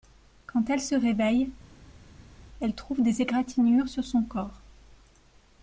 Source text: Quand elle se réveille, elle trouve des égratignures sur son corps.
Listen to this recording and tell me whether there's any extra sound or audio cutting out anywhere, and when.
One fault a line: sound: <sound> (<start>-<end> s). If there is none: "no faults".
no faults